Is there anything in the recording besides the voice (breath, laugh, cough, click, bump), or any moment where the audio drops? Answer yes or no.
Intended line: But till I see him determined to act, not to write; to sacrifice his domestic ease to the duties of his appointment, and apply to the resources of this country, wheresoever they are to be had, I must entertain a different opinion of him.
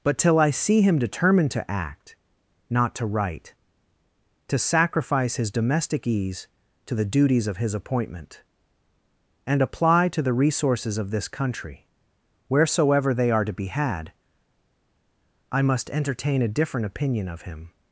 no